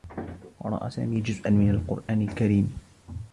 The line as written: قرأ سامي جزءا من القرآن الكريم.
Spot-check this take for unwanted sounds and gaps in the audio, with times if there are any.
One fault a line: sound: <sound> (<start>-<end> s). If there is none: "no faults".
sound: dropout (2.0-2.1 s)